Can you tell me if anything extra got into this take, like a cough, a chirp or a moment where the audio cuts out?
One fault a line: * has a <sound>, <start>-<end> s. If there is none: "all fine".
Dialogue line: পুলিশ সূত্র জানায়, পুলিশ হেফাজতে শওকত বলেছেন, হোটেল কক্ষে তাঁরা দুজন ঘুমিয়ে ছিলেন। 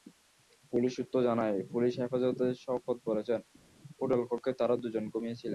all fine